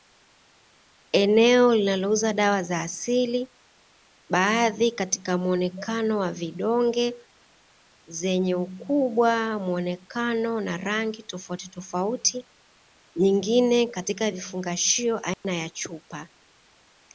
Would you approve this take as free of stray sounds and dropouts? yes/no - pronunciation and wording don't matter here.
no